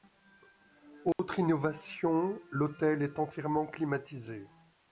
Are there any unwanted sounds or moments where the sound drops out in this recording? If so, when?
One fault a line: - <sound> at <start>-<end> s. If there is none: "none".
- dropout at 1.1-1.2 s